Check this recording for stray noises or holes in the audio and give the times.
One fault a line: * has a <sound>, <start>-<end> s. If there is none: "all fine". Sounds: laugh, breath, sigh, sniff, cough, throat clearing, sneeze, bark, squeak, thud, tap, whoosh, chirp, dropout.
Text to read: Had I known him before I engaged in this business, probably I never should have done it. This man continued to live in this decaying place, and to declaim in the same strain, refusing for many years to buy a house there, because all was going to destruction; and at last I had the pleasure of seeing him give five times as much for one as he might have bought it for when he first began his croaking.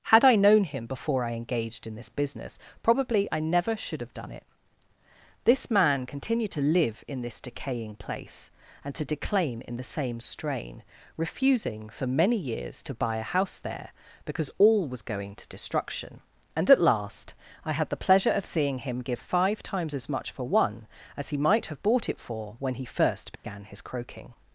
* has a dropout, 23.4-23.4 s